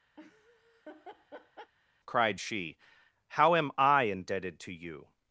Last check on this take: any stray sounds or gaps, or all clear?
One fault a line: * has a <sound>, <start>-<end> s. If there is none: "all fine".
* has a laugh, 0.2-1.7 s